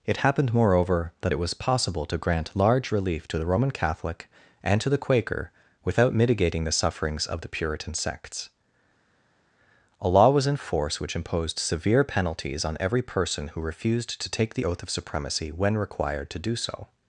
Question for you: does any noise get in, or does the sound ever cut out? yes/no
no